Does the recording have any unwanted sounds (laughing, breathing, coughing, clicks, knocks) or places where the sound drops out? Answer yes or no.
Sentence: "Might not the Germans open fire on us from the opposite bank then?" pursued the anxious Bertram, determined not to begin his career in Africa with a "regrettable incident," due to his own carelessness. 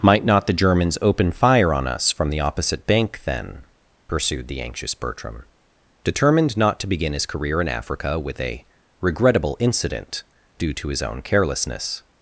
no